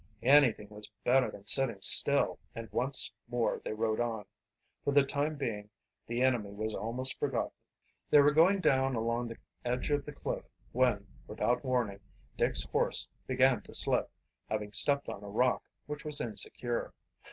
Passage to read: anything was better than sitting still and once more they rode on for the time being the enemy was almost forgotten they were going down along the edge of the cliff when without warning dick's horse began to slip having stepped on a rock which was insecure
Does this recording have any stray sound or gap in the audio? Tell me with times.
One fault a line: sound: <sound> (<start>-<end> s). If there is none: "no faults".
no faults